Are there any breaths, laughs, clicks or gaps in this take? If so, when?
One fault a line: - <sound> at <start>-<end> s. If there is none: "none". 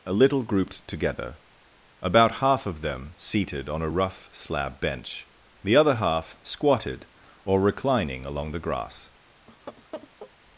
- laugh at 9.5-10.3 s